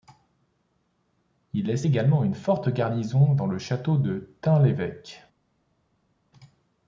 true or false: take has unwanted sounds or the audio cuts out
false